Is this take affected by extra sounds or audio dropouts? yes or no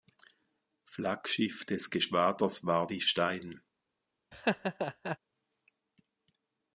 yes